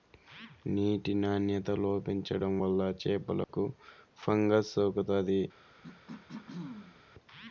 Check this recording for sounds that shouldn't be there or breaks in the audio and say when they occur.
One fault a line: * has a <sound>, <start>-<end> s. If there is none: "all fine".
* has a dropout, 3.4-3.5 s
* has a throat clearing, 5.8-7.0 s